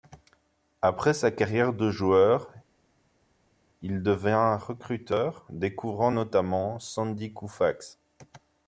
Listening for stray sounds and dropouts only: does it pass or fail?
pass